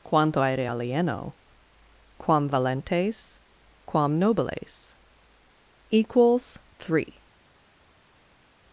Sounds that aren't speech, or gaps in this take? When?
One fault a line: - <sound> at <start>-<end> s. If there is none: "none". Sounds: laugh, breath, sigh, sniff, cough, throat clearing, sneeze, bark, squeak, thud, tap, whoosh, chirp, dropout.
none